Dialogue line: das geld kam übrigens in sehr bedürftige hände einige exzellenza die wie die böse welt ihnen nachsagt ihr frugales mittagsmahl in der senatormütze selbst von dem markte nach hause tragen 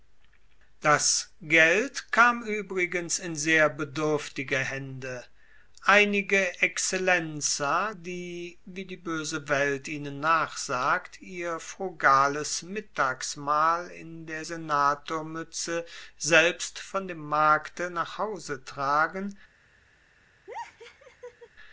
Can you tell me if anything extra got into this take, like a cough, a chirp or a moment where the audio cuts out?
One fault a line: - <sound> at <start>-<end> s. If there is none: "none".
- laugh at 20.5-21.5 s